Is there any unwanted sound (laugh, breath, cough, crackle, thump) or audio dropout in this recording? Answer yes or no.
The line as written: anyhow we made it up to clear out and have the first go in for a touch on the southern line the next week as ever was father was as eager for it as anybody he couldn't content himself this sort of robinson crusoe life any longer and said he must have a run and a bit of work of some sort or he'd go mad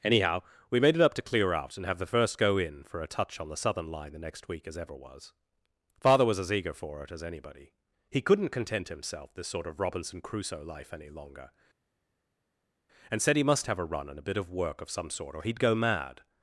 no